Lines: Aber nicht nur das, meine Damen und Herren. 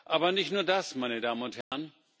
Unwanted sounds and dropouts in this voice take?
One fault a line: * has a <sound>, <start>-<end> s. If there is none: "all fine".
* has a dropout, 1.6-1.7 s